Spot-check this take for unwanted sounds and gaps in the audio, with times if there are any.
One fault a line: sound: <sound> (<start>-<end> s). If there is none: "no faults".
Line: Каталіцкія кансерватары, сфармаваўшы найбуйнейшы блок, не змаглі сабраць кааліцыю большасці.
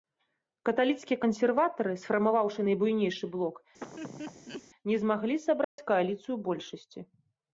sound: laugh (3.8-4.6 s)
sound: dropout (5.6-5.8 s)